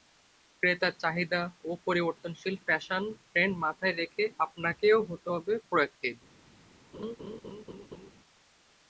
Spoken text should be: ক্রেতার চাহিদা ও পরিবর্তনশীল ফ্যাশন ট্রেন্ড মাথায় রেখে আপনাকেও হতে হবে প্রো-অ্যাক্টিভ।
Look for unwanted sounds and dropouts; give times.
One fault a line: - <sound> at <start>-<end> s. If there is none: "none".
- laugh at 6.9-8.1 s